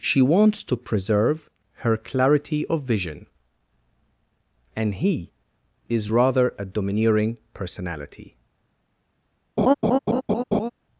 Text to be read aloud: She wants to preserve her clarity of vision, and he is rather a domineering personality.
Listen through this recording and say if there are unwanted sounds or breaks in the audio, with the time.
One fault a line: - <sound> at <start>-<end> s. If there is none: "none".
- laugh at 9.6-10.7 s